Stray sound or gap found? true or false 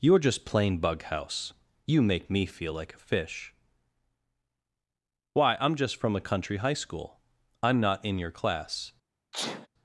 true